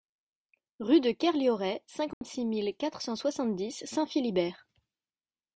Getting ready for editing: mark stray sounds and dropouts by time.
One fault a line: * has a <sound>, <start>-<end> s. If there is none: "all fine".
* has a dropout, 2.1-2.2 s